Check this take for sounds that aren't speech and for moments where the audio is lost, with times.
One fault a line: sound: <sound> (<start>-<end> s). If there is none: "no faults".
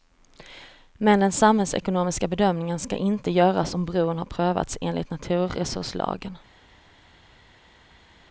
no faults